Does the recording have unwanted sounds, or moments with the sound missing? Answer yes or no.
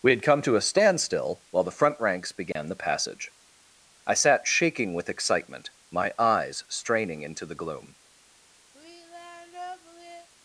yes